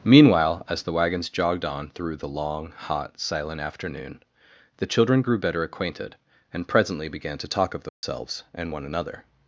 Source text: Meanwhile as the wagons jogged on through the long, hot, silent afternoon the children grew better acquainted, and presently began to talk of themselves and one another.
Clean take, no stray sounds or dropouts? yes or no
no